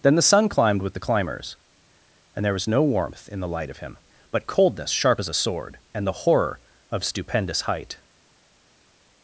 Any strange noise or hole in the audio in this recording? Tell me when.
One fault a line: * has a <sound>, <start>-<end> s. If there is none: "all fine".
all fine